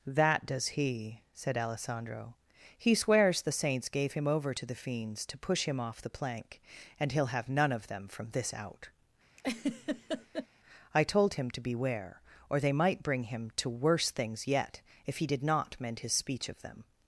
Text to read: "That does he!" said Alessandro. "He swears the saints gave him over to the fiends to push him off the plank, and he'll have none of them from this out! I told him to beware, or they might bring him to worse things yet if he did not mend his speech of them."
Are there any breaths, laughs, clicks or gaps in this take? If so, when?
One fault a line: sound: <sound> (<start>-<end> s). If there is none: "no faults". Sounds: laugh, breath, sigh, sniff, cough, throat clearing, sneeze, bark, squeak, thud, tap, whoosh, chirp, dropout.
sound: laugh (9.4-10.5 s)